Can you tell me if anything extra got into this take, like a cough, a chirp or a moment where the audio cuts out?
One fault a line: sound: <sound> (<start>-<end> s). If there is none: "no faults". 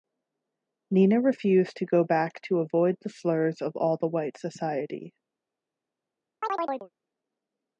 sound: chirp (6.4-6.9 s)